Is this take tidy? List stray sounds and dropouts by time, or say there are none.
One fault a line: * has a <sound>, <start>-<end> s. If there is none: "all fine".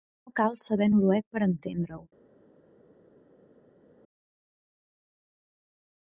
all fine